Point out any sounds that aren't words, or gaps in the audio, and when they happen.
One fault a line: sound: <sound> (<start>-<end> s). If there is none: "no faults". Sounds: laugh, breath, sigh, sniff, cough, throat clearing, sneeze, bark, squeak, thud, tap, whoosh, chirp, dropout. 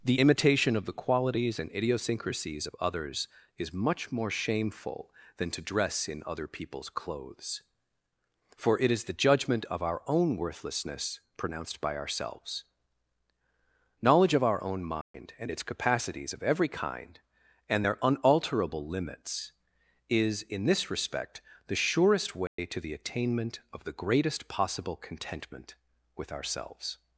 sound: dropout (15.0-15.1 s)
sound: dropout (22.5-22.6 s)